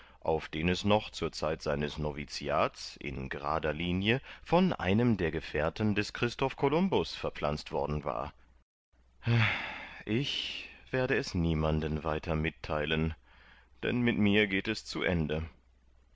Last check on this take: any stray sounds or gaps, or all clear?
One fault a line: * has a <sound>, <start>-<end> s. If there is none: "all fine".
all fine